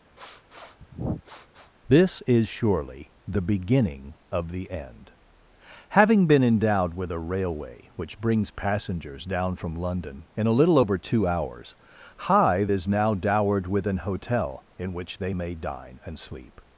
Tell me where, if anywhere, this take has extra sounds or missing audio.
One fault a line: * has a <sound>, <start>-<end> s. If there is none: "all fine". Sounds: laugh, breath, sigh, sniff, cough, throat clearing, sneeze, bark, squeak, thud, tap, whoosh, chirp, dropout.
* has a sniff, 0.2-1.7 s